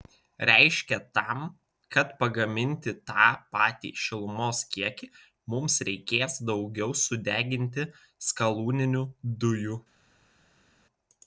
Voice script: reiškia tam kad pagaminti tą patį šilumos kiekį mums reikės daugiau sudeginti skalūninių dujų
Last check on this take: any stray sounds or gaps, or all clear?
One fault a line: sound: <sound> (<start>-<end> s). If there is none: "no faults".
no faults